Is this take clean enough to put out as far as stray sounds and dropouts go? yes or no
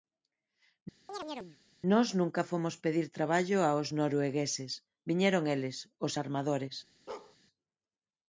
no